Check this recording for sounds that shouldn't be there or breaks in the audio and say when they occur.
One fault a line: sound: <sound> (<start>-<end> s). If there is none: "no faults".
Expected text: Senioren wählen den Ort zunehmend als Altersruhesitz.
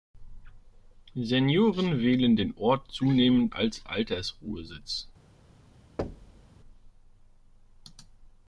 sound: thud (6.0-6.5 s)